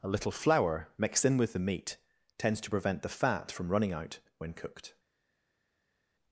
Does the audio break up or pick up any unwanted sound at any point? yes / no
no